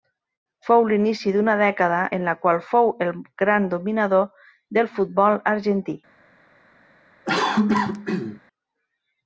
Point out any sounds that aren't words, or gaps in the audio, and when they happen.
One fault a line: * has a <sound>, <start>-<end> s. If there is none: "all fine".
* has a cough, 7.3-8.4 s